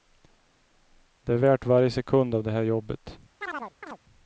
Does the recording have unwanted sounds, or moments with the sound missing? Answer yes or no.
yes